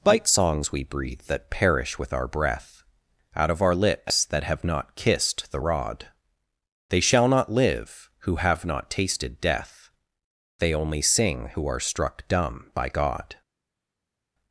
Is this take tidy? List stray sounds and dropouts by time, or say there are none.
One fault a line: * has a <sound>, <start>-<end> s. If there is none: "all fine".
all fine